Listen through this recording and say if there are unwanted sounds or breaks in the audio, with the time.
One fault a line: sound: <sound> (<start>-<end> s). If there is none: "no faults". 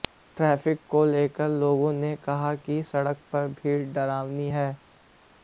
no faults